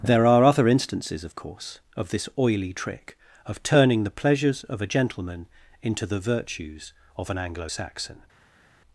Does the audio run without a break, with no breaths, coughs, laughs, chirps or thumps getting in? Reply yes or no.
yes